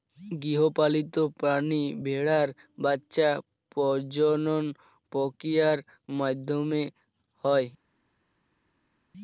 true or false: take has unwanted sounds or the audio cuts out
false